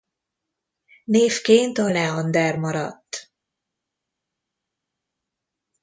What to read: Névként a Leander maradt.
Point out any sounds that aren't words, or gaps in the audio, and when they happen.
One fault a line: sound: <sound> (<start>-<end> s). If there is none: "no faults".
no faults